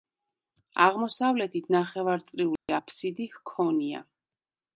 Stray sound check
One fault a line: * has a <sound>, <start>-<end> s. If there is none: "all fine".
* has a dropout, 2.6-2.7 s